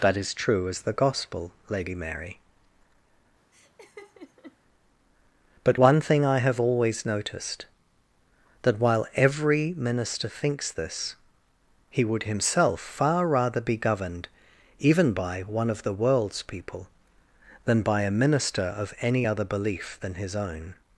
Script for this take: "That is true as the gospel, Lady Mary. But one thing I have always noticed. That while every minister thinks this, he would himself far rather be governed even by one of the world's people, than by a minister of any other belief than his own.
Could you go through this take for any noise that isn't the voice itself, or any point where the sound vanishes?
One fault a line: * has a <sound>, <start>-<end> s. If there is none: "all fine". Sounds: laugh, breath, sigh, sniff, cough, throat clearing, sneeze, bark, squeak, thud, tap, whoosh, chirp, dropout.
* has a laugh, 3.5-4.6 s